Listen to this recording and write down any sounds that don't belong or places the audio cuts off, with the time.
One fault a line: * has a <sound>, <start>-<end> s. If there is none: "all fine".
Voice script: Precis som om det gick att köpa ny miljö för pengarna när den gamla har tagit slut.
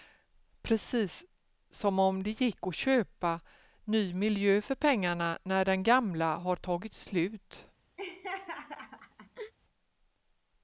* has a laugh, 8.0-9.5 s